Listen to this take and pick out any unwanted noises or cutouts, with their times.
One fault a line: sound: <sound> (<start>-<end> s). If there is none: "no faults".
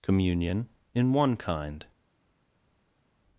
no faults